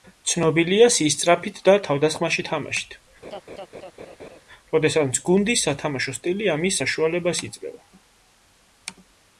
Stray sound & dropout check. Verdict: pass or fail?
fail